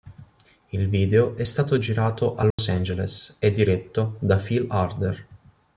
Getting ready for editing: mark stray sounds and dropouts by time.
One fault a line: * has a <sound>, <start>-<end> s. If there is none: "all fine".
* has a dropout, 2.5-2.6 s